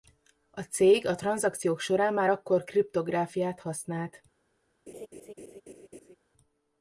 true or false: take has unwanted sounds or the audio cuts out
true